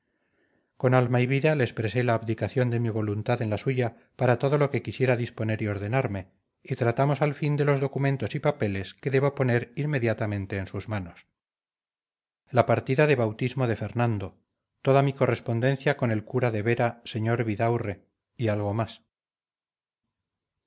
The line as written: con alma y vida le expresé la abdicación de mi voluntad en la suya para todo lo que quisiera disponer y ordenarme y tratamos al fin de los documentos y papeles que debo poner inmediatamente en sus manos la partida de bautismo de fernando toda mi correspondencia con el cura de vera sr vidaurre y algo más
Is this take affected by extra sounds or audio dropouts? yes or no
no